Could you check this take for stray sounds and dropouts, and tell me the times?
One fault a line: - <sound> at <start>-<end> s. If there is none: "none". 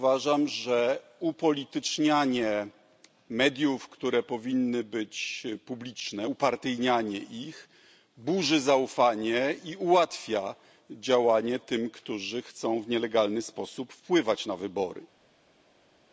none